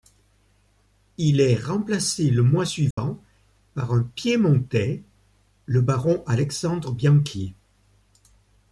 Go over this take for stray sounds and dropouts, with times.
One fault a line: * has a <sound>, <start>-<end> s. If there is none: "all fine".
* has a dropout, 2.9-3.0 s